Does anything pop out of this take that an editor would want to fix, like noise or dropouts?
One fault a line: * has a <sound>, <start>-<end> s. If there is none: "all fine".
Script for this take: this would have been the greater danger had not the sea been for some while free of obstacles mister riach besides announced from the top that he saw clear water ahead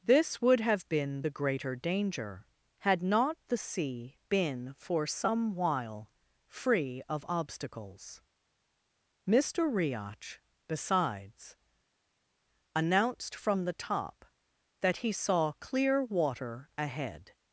all fine